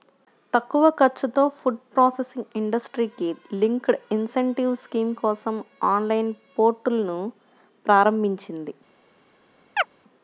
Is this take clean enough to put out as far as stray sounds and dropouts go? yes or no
no